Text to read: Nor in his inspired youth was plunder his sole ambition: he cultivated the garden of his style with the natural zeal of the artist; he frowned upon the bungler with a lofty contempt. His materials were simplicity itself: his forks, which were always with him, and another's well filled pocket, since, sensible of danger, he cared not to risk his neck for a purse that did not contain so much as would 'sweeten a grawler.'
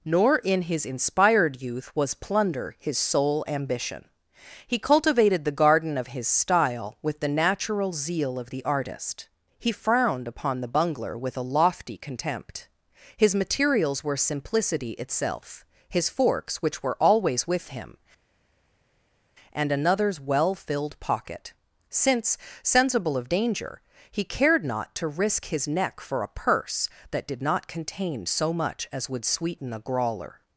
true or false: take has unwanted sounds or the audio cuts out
false